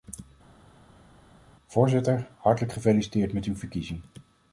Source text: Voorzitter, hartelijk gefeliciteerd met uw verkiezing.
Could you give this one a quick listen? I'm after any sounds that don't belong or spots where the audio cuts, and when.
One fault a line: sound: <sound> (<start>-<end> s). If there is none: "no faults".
no faults